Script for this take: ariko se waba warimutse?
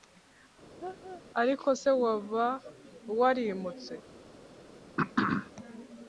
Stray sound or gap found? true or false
true